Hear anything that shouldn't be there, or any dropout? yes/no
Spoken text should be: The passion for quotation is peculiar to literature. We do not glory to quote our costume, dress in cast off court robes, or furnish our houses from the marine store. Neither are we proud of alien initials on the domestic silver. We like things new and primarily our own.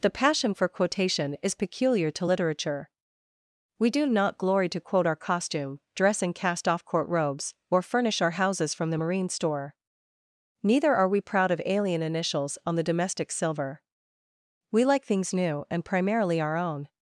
no